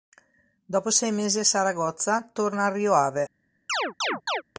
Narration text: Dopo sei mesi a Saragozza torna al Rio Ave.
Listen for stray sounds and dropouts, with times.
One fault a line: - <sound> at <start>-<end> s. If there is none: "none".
- chirp at 3.7-4.4 s